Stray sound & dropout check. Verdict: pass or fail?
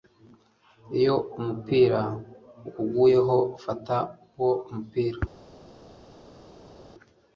pass